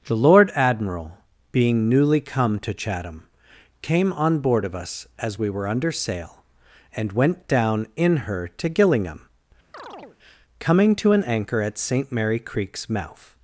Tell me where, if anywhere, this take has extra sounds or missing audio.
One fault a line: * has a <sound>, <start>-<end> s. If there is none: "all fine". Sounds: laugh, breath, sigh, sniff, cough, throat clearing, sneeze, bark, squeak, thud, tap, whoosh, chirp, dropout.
* has a chirp, 9.7-10.2 s